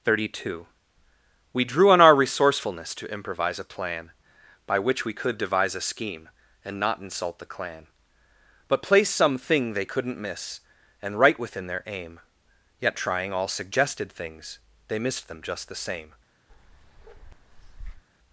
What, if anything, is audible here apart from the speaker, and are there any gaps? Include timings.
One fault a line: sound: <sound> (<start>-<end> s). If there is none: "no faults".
sound: bark (16.5-18.0 s)